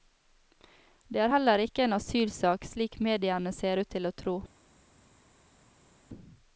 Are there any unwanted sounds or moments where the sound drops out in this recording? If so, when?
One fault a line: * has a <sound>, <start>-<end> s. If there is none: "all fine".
all fine